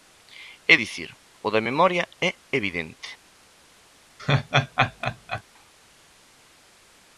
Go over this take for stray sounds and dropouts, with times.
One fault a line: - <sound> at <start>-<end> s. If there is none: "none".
- laugh at 4.2-5.4 s